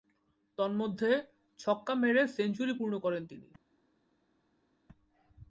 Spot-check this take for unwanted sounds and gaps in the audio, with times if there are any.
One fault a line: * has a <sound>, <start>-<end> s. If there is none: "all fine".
all fine